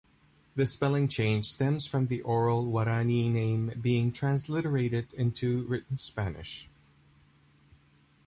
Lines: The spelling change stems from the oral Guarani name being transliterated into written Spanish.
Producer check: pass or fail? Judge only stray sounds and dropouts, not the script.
pass